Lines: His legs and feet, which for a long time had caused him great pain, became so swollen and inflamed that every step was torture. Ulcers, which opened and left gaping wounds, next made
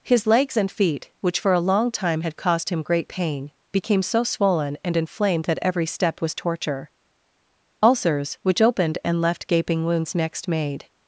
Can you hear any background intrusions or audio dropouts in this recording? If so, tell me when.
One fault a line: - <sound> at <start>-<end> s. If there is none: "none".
none